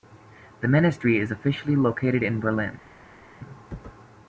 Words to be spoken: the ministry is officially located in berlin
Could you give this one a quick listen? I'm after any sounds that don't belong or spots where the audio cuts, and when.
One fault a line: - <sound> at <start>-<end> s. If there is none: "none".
none